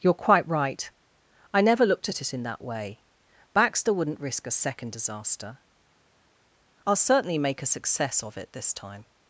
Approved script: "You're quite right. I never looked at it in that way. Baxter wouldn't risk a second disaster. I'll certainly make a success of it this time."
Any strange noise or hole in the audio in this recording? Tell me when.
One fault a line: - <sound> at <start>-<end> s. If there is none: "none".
none